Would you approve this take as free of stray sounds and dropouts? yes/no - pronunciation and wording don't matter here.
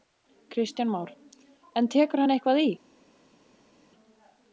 yes